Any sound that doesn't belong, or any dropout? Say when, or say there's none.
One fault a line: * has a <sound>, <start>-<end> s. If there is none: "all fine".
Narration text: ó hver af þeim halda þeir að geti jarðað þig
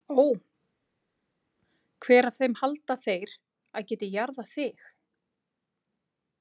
all fine